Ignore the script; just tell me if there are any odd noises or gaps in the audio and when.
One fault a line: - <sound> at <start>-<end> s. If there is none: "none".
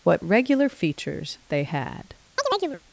- chirp at 2.4-2.8 s